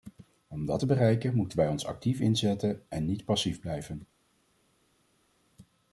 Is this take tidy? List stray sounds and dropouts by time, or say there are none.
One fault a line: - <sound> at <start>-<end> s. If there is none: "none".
none